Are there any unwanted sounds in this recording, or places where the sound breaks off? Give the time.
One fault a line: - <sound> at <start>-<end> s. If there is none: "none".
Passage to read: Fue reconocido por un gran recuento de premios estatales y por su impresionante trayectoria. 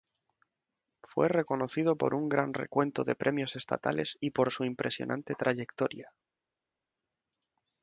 none